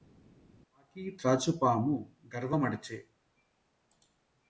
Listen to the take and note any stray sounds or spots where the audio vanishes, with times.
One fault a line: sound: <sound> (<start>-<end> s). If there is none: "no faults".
no faults